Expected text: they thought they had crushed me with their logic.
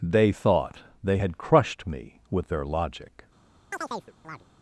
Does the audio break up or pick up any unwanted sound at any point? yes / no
yes